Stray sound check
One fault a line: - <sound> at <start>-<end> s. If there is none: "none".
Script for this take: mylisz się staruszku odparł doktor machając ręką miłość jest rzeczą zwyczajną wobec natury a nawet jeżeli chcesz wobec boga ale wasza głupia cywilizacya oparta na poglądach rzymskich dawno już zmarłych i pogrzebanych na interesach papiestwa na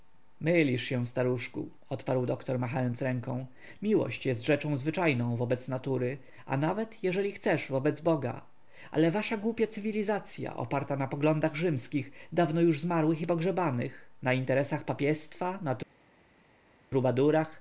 none